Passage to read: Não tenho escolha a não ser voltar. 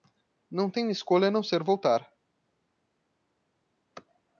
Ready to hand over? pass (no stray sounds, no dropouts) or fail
pass